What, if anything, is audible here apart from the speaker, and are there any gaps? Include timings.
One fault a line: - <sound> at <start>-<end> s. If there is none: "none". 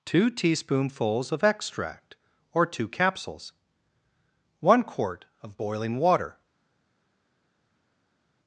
none